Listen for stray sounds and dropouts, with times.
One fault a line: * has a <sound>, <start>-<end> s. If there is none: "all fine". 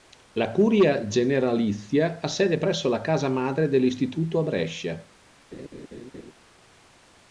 * has a laugh, 5.5-6.3 s